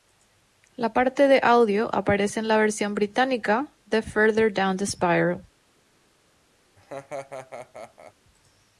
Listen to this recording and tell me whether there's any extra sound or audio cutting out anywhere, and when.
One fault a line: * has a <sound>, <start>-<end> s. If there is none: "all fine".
* has a laugh, 6.8-8.1 s